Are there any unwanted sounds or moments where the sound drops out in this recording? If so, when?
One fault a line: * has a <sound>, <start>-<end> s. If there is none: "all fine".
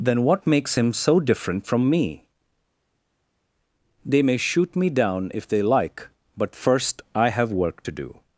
all fine